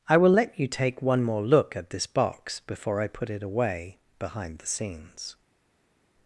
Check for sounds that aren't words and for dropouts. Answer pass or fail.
pass